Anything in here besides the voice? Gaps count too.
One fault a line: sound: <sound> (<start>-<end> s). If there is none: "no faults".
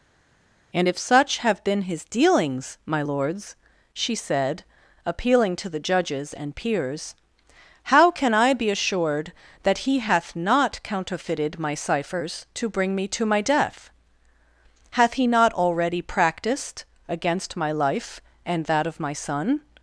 no faults